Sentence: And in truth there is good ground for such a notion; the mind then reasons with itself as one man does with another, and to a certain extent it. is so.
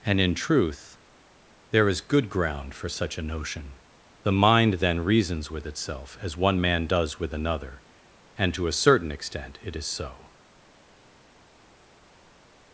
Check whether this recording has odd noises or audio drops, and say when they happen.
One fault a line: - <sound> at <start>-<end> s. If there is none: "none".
none